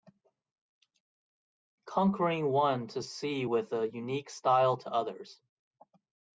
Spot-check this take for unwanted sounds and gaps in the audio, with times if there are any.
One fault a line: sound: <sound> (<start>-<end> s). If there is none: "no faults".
no faults